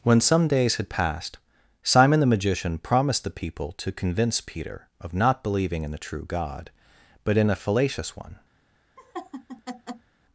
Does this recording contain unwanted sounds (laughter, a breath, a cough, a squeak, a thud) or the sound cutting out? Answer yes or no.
yes